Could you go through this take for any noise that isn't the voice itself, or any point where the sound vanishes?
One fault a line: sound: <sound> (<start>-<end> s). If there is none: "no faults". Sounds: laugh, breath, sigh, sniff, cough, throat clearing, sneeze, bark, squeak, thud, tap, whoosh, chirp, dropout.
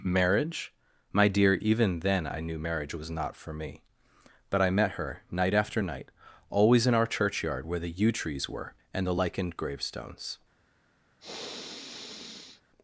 sound: sniff (11.2-12.6 s)